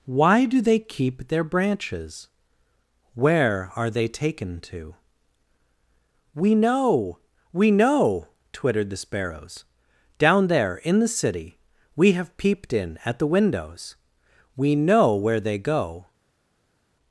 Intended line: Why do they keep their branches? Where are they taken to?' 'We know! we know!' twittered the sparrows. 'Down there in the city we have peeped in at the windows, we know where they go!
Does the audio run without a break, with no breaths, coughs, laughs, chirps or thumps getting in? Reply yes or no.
yes